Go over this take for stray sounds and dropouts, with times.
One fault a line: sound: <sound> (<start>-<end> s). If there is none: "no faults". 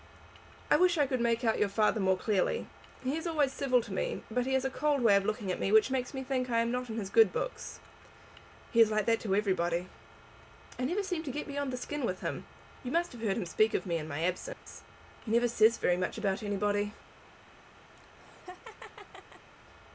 sound: dropout (14.5-14.7 s)
sound: laugh (18.0-19.5 s)